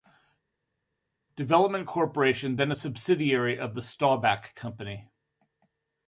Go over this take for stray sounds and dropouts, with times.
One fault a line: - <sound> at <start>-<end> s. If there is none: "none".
none